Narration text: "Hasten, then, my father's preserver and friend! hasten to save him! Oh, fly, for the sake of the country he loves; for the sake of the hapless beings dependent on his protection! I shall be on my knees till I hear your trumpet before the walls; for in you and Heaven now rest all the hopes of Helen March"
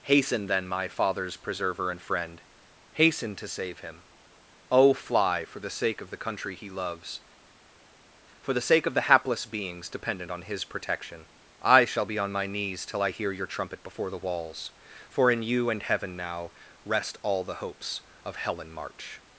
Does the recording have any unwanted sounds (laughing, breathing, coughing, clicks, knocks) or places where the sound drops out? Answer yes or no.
no